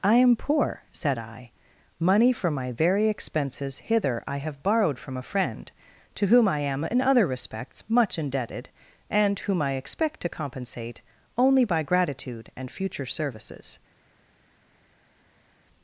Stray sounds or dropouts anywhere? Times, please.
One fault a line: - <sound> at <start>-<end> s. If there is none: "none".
none